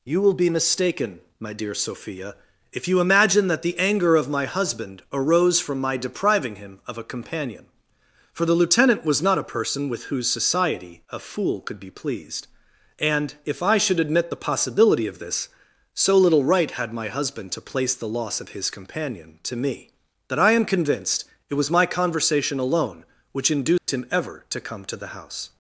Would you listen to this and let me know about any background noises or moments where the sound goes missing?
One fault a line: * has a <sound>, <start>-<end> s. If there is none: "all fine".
* has a dropout, 23.8-23.9 s